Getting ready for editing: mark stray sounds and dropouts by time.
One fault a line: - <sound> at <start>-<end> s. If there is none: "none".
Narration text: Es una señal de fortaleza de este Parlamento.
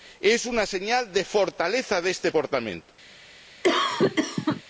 - cough at 3.6-4.6 s